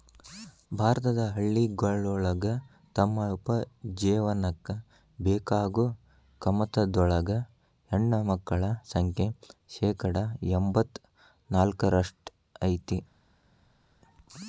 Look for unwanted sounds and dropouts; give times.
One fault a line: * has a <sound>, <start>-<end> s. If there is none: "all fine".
all fine